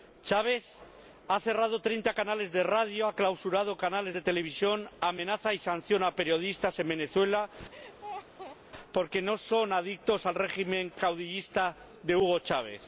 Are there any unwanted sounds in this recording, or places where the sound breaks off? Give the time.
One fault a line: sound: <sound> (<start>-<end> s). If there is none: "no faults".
sound: laugh (7.7-8.6 s)